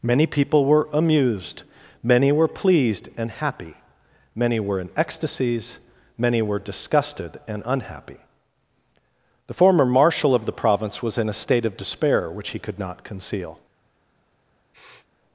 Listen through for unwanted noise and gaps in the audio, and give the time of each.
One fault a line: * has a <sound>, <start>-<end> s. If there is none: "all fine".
* has a sniff, 14.7-15.1 s